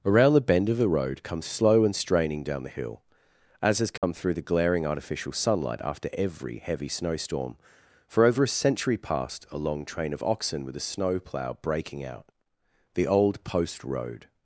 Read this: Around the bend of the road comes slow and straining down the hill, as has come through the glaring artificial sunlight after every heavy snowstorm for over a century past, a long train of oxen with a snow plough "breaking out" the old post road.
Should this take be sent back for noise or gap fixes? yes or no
yes